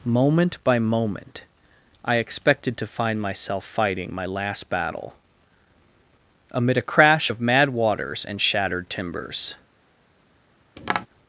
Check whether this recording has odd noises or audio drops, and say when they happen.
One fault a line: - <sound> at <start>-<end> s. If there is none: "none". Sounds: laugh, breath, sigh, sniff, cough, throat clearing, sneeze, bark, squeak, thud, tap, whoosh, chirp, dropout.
- tap at 10.8-11.1 s